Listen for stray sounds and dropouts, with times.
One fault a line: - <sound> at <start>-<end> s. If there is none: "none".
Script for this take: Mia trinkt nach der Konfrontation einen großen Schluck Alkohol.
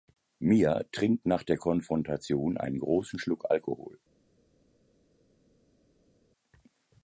none